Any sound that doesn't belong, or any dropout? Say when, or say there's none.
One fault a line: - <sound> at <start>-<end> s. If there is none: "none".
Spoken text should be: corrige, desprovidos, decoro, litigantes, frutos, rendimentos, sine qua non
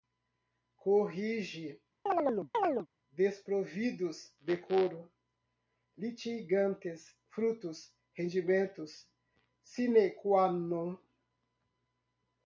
- chirp at 2.1-2.9 s